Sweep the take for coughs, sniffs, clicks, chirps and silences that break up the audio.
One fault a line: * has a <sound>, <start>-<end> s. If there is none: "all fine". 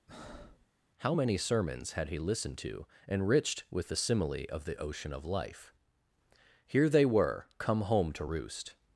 * has a breath, 0.1-0.7 s